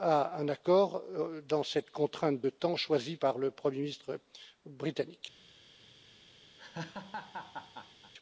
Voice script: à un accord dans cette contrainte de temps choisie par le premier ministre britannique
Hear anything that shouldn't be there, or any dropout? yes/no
yes